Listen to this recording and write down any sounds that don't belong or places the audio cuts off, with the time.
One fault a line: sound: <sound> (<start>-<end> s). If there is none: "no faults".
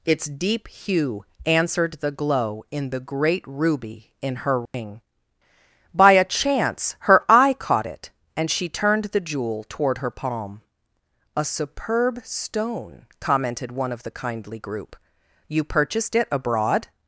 sound: dropout (4.7-4.7 s)